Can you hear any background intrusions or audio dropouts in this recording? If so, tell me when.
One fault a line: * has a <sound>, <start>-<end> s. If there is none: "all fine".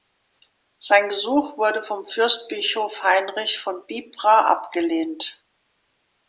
all fine